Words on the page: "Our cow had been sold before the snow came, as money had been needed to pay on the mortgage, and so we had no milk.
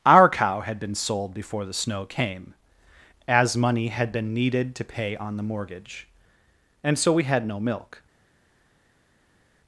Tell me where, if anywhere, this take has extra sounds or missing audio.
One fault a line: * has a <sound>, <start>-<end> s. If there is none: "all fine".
all fine